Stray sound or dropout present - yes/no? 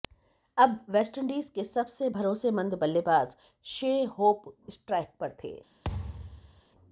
yes